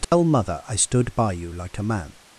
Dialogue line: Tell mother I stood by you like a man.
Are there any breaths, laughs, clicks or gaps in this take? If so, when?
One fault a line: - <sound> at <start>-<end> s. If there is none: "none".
- dropout at 0.0-0.1 s